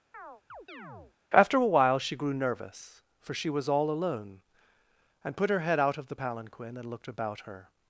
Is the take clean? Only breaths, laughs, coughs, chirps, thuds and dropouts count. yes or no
no